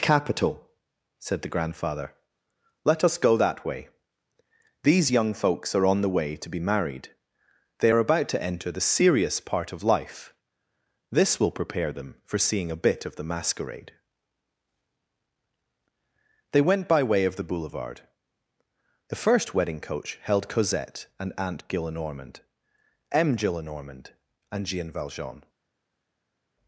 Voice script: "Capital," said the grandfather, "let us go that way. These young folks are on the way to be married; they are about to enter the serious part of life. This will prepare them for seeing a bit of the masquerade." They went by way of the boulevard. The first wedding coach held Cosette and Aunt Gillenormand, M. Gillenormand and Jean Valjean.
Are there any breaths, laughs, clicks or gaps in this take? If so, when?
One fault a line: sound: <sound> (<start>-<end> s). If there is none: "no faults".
no faults